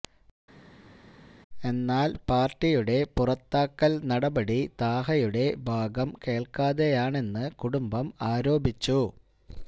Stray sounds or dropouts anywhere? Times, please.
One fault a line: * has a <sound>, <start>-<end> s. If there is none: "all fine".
all fine